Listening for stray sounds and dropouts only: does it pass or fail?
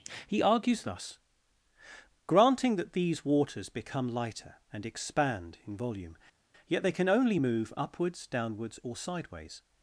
pass